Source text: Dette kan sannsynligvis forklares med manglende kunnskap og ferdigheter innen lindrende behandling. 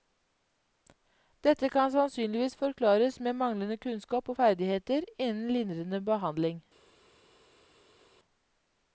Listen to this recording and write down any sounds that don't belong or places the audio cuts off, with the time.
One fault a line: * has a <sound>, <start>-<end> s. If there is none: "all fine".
all fine